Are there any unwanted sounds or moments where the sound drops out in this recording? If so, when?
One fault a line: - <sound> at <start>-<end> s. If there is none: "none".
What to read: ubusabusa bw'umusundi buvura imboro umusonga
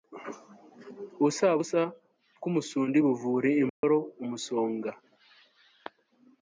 - dropout at 3.7-3.8 s